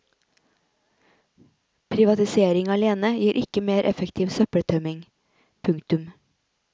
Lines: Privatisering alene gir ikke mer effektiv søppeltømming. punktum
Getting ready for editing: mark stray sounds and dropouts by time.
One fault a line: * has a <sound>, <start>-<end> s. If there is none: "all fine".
all fine